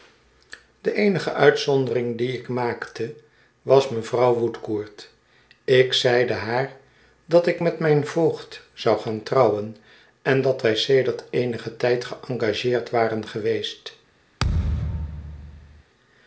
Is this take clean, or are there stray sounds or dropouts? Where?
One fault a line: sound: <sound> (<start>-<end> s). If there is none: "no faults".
sound: thud (14.4-15.8 s)